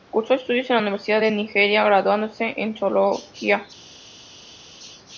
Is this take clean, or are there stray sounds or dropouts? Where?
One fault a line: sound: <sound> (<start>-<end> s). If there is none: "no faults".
no faults